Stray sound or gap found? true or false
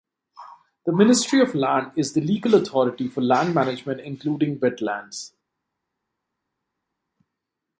false